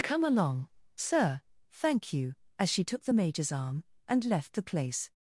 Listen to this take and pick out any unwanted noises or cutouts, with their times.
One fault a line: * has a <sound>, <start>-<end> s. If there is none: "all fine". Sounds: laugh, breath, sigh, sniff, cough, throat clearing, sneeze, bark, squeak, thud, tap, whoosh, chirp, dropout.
all fine